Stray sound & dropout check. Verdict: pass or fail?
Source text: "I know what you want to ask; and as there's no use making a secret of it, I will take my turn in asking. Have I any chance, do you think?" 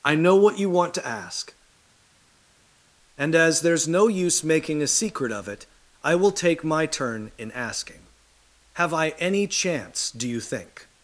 pass